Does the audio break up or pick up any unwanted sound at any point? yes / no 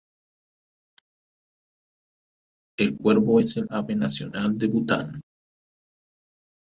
no